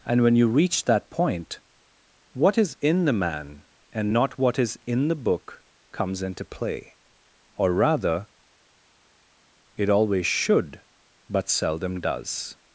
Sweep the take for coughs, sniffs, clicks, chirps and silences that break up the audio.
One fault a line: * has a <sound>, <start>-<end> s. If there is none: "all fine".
all fine